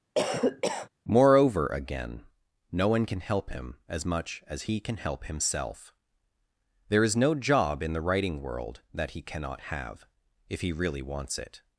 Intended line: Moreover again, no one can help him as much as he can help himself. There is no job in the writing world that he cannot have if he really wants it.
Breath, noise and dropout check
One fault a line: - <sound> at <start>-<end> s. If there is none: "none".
- cough at 0.2-0.9 s